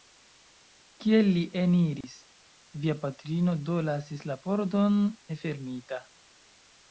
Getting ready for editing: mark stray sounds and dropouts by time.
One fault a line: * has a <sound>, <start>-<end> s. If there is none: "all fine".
* has a dropout, 2.0-2.0 s